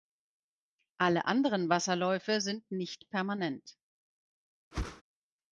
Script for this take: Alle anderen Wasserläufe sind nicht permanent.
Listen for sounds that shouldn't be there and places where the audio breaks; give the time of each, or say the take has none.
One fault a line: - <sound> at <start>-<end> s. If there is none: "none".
- whoosh at 4.7-5.0 s